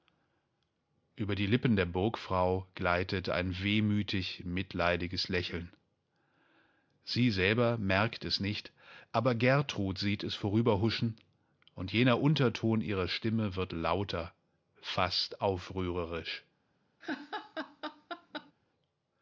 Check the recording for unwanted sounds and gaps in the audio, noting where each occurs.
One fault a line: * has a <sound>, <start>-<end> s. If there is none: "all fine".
* has a laugh, 17.0-18.5 s